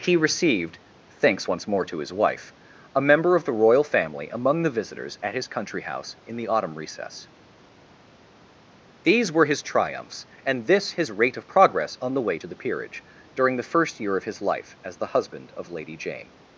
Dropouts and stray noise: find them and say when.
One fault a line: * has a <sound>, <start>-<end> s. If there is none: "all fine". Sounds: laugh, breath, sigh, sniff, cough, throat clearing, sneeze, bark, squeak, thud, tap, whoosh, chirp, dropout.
all fine